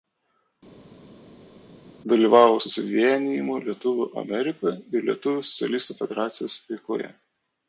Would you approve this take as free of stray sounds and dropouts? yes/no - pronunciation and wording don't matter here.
yes